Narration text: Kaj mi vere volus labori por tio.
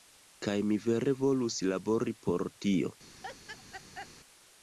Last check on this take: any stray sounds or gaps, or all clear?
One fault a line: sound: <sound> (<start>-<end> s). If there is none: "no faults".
sound: laugh (3.2-4.1 s)